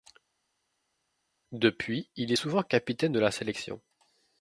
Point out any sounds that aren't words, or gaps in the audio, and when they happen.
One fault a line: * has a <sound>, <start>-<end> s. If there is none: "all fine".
all fine